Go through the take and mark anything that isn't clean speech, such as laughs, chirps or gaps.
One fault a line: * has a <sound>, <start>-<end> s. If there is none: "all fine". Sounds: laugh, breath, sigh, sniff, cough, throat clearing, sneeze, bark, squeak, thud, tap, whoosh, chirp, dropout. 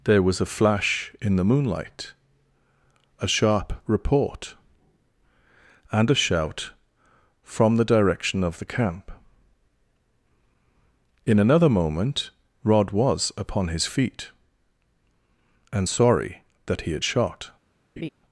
* has a laugh, 18.0-18.1 s